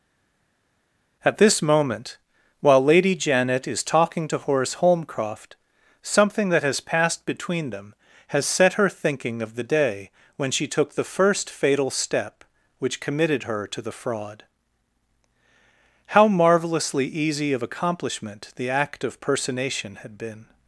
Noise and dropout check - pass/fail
pass